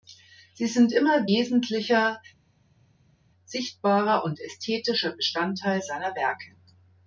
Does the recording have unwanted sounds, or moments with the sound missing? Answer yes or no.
no